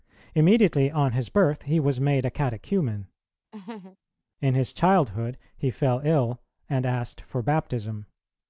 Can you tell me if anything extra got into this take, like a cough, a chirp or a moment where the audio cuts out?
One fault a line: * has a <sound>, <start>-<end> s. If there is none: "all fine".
* has a laugh, 3.5-4.0 s